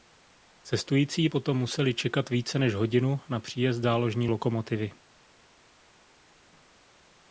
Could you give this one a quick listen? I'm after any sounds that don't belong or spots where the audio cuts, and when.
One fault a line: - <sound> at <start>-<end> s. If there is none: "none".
none